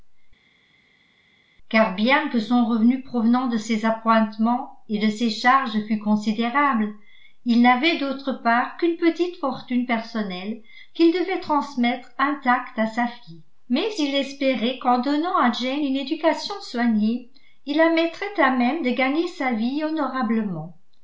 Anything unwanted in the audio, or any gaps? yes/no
no